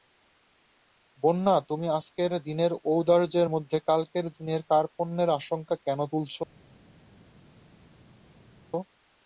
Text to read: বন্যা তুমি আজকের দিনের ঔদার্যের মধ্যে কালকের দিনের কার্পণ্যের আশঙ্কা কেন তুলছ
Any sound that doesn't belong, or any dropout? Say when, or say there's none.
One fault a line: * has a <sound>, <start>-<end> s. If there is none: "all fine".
all fine